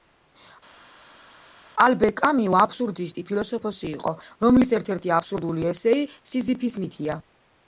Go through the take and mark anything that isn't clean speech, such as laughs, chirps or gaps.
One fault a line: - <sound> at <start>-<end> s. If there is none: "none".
none